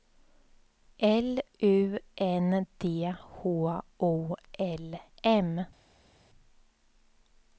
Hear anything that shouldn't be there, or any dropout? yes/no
no